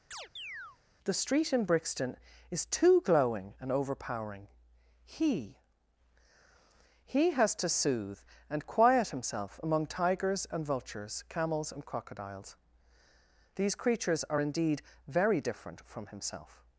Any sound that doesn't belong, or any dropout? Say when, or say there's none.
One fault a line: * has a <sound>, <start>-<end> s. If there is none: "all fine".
* has a chirp, 0.1-0.8 s